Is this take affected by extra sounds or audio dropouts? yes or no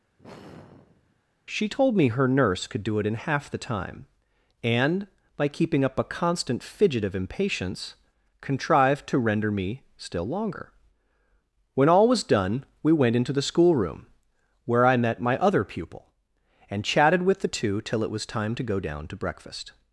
yes